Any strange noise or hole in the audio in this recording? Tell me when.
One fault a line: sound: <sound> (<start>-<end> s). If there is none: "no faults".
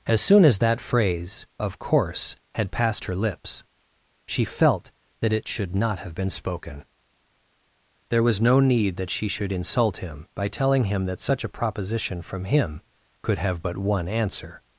no faults